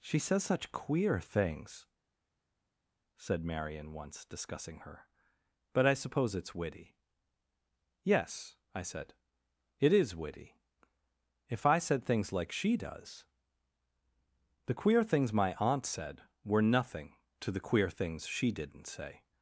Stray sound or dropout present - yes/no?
no